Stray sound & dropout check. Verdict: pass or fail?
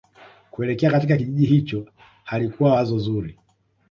pass